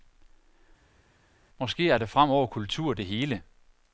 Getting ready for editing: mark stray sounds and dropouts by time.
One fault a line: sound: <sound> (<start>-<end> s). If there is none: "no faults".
no faults